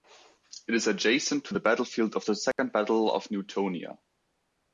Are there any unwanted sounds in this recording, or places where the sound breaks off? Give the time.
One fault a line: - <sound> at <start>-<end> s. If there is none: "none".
- dropout at 2.5-2.6 s